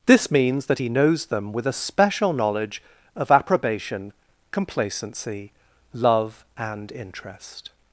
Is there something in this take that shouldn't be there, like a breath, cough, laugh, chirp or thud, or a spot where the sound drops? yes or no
no